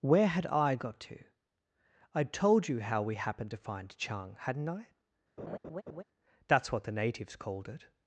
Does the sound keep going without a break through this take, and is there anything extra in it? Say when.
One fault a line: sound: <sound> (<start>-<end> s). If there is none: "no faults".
sound: laugh (5.4-6.0 s)